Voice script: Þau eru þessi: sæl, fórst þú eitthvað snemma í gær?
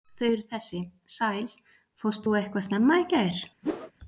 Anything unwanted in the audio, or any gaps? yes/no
yes